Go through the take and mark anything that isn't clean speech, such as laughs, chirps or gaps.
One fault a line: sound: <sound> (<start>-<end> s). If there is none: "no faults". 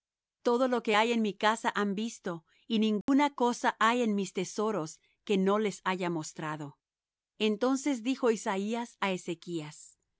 sound: dropout (3.0-3.1 s)